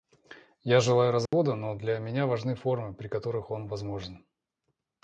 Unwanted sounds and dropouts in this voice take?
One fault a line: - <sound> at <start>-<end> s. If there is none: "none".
- dropout at 1.3-1.3 s